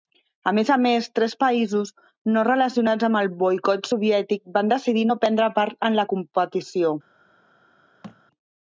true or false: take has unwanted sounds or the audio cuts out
true